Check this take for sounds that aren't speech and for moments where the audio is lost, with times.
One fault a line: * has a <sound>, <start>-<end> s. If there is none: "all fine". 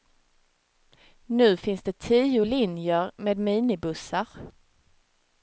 all fine